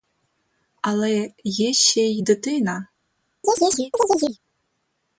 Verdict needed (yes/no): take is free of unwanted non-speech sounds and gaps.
no